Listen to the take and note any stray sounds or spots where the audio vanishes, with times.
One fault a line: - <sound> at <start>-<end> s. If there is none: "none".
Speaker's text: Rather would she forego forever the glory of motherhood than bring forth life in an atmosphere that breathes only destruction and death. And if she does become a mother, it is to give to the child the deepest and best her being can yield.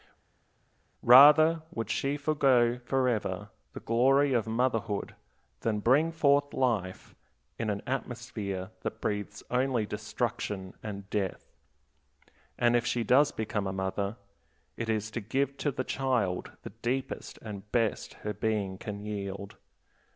none